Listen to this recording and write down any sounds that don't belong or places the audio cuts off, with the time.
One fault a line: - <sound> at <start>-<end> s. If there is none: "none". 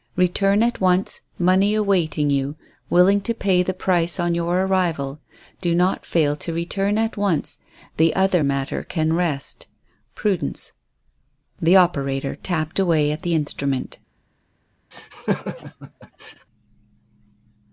- laugh at 14.9-16.5 s